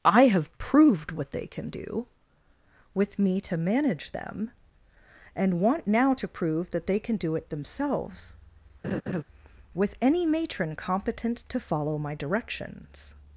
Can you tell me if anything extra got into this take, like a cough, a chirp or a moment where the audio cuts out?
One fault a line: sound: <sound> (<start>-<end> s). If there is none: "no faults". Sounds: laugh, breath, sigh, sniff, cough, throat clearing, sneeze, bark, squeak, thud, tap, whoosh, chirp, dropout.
sound: laugh (8.8-9.2 s)